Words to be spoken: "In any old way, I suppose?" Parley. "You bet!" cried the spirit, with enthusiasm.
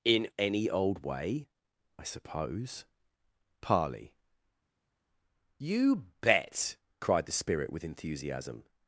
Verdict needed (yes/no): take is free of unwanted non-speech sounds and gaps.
yes